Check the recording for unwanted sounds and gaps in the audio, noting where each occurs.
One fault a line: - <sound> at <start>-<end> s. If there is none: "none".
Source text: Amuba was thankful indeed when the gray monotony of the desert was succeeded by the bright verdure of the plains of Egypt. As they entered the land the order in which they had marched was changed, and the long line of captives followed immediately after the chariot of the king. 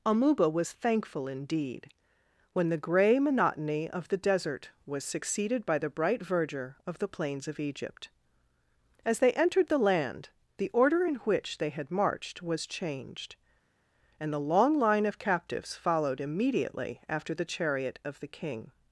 none